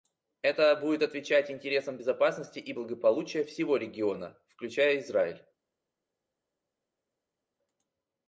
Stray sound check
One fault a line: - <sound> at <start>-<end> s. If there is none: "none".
none